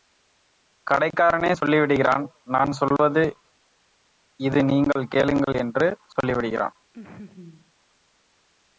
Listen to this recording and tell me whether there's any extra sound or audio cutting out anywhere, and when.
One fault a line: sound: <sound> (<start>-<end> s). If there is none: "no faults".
sound: laugh (6.9-7.7 s)